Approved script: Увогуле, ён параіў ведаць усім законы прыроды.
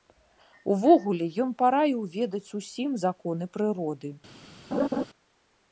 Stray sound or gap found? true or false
true